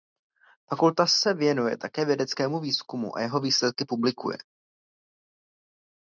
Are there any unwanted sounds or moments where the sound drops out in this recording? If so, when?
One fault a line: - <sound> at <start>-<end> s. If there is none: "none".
none